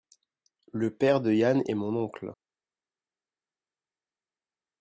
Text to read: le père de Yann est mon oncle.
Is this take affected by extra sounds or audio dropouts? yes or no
no